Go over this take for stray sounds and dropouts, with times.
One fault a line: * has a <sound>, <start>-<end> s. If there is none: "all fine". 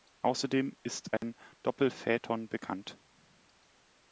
* has a dropout, 1.2-1.2 s